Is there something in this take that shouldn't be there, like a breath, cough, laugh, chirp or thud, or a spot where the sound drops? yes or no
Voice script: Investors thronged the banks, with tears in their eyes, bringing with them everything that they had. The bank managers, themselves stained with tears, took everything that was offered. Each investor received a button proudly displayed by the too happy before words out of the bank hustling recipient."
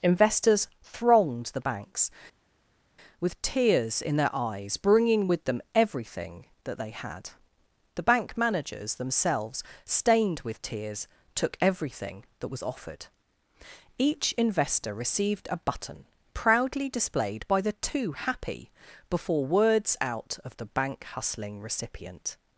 no